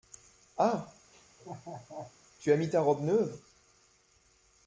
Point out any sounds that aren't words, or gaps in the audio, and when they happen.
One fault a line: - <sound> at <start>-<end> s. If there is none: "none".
- laugh at 1.1-2.2 s